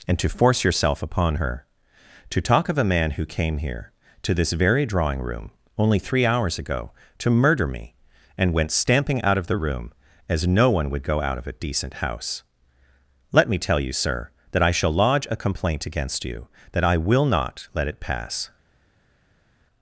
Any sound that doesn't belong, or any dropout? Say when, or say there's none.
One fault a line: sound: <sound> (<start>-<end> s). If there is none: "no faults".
no faults